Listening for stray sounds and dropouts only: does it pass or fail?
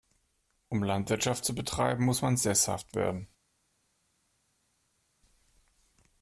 pass